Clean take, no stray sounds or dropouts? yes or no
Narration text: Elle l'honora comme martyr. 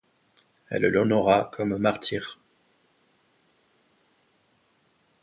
yes